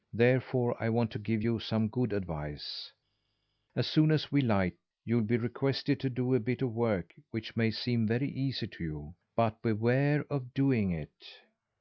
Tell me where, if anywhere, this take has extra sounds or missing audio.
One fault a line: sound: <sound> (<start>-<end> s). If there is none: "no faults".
no faults